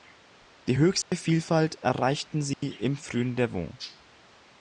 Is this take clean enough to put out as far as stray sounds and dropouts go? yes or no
no